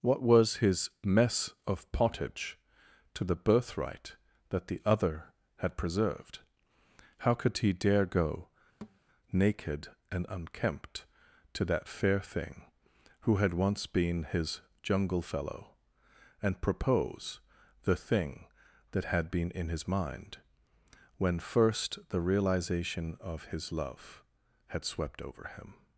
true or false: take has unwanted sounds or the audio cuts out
true